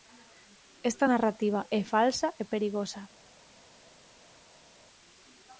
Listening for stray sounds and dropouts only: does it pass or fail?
pass